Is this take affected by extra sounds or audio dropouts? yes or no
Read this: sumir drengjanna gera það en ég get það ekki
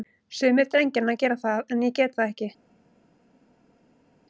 no